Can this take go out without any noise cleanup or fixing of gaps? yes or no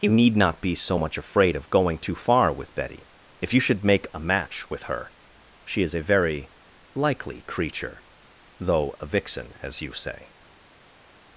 yes